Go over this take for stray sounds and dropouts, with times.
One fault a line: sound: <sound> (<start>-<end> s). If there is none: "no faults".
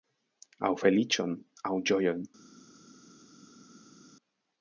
no faults